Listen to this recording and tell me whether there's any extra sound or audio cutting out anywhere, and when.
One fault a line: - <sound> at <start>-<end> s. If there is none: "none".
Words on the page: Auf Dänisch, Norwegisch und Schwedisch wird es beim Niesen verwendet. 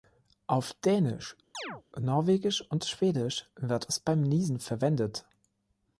- chirp at 1.5-1.8 s